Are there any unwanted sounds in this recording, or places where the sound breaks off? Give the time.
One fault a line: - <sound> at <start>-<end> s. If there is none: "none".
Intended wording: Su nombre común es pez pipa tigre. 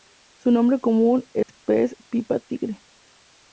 - dropout at 1.4-1.5 s